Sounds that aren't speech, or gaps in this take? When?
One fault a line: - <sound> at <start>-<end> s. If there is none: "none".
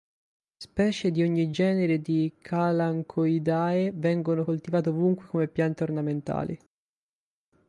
none